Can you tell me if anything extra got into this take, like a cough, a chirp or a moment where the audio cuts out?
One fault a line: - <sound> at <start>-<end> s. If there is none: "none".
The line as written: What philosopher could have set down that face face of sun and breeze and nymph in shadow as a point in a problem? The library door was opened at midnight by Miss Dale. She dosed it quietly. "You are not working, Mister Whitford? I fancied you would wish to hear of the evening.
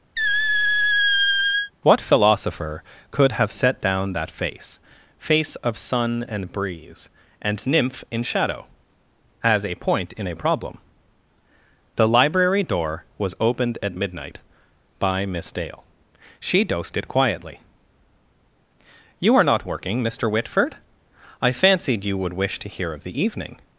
- squeak at 0.2-1.7 s